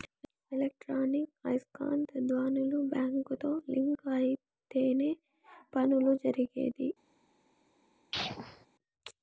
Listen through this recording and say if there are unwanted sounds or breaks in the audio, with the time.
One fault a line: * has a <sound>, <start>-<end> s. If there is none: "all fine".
* has a sneeze, 8.1-8.7 s